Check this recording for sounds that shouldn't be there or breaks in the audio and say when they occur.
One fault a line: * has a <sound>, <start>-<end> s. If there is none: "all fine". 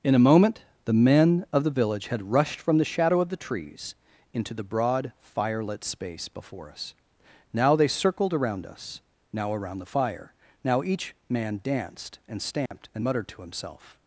* has a dropout, 12.7-12.7 s